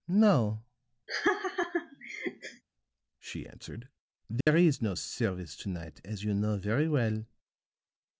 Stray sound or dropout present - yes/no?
yes